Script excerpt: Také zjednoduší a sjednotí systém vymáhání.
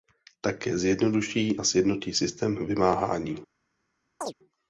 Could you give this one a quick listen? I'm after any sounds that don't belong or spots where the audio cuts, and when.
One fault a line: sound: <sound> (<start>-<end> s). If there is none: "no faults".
sound: chirp (4.2-4.3 s)